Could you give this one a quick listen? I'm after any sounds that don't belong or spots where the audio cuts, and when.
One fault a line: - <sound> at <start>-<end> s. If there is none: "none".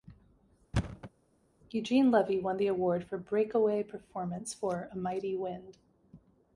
- thud at 0.7-1.1 s